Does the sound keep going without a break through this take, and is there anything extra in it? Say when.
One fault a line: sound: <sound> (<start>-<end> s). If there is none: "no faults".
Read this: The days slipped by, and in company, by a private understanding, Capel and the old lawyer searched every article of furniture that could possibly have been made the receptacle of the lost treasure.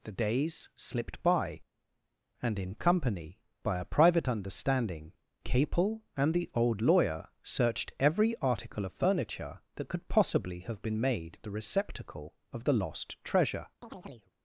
sound: chirp (13.8-14.3 s)